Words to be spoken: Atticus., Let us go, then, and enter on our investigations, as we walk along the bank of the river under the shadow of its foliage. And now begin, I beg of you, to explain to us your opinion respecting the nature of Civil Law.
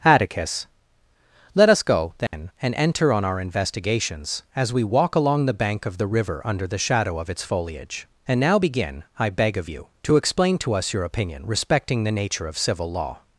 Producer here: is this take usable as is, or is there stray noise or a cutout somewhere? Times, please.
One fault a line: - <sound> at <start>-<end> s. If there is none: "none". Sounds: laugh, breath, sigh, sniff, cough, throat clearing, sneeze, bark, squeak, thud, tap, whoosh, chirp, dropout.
- dropout at 2.3-2.3 s